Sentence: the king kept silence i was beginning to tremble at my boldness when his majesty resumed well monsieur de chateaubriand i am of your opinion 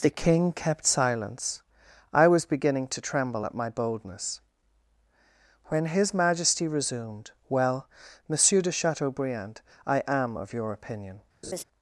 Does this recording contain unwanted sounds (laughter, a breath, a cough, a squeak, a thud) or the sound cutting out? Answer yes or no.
yes